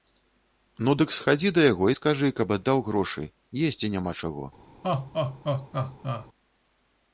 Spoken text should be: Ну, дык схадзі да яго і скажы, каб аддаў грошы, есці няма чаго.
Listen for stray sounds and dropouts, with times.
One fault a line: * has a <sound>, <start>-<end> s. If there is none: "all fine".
* has a laugh, 4.8-6.3 s